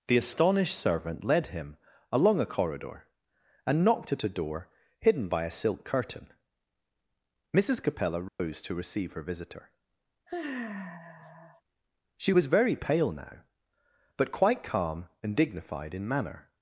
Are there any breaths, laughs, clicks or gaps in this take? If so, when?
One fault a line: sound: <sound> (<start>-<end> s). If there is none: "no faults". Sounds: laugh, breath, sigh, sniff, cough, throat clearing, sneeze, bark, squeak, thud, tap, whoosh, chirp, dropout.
sound: dropout (8.3-8.4 s)
sound: sigh (10.3-11.6 s)